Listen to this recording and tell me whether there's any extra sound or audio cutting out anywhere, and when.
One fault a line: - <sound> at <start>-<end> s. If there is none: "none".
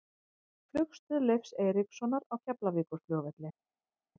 none